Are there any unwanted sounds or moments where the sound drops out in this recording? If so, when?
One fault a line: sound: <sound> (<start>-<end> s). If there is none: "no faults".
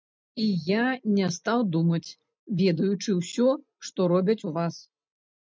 no faults